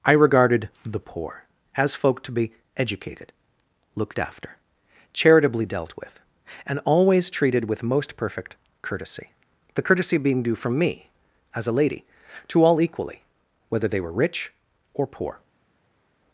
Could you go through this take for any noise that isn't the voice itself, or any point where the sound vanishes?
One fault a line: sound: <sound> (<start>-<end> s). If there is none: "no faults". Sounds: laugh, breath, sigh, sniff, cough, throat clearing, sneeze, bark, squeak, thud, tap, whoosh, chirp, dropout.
no faults